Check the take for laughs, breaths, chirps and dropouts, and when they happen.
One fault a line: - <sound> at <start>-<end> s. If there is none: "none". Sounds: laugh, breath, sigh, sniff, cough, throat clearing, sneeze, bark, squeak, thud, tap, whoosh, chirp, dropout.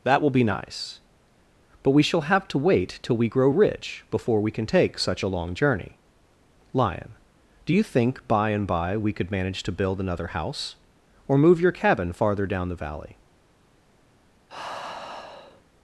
- sigh at 14.5-15.6 s